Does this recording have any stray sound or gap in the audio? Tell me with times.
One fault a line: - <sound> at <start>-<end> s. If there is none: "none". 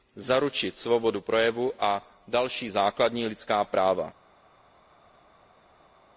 none